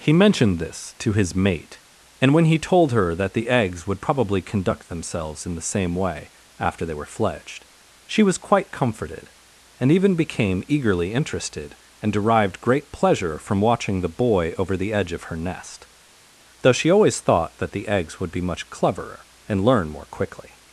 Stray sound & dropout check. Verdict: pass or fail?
pass